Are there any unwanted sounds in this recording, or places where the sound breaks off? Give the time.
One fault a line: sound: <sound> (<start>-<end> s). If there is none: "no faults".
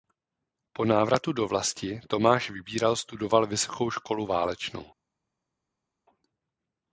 no faults